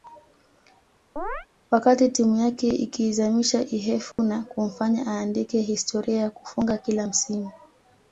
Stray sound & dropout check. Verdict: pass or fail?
fail